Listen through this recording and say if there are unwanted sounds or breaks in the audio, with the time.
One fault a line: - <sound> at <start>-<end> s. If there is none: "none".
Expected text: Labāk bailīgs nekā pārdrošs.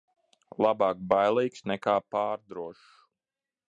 none